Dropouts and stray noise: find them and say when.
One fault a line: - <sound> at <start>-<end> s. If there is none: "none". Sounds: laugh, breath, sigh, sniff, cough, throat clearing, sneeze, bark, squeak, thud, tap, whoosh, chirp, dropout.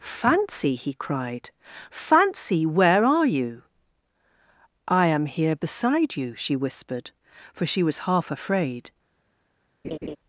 - laugh at 9.8-10.2 s